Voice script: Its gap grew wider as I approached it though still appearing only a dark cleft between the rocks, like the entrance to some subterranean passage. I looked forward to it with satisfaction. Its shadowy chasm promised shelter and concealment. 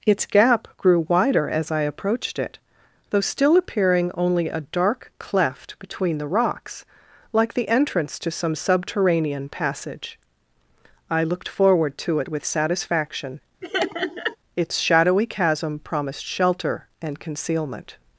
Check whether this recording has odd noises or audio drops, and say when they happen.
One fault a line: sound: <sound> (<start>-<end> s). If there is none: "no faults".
sound: laugh (13.6-14.4 s)